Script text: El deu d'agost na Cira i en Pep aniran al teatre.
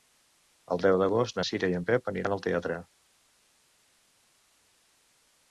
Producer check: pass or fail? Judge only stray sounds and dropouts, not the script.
pass